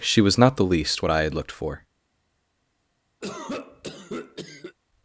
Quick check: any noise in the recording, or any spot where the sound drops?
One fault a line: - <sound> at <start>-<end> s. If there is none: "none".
- cough at 3.2-4.8 s